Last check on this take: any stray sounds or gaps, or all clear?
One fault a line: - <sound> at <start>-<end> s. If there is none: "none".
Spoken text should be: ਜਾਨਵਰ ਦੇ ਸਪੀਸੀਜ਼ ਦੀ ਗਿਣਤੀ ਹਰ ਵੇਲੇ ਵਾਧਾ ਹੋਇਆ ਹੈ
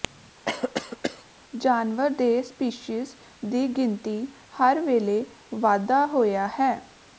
- cough at 0.4-1.2 s